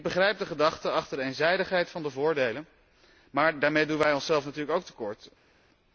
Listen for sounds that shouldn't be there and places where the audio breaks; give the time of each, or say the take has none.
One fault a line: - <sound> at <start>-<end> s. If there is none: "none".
none